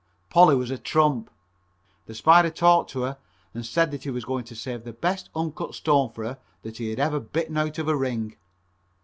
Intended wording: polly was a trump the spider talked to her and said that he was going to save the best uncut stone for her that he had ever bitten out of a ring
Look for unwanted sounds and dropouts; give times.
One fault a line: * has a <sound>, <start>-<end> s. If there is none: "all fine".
all fine